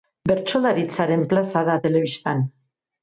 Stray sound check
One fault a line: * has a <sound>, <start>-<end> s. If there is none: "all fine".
all fine